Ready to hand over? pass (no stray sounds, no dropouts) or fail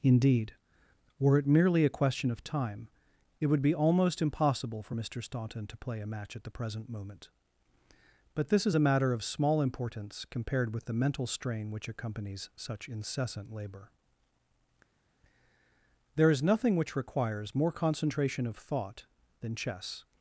pass